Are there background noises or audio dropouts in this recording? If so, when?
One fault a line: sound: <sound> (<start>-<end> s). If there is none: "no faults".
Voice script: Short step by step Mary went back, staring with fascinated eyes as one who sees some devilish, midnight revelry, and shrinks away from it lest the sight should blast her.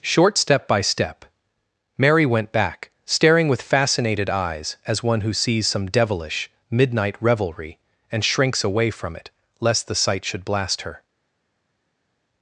no faults